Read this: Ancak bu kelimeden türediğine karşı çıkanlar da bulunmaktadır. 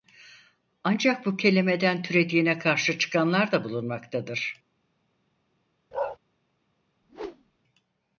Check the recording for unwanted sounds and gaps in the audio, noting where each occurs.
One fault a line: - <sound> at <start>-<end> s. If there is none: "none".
- bark at 5.9-6.2 s
- whoosh at 7.0-7.6 s